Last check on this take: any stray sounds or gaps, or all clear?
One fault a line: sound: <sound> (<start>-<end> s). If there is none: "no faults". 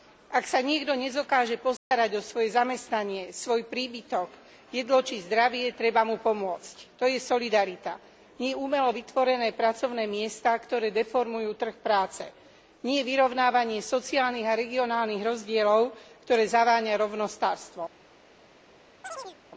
sound: dropout (1.8-1.9 s)
sound: chirp (19.0-19.4 s)